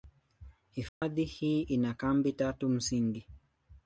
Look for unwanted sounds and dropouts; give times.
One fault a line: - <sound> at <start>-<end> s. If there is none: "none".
- dropout at 0.9-1.0 s